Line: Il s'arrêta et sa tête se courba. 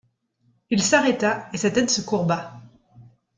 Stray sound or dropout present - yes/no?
no